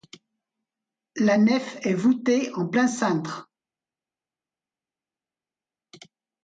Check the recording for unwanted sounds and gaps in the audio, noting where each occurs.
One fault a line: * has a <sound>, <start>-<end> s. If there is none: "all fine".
all fine